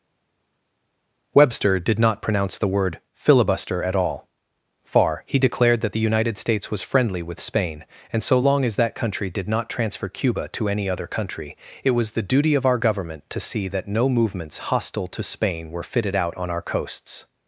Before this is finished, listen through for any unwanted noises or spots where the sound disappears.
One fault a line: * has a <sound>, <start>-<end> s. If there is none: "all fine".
all fine